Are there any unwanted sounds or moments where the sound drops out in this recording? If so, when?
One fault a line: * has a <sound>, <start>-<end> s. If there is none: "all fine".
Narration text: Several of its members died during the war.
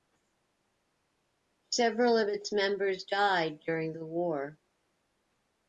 all fine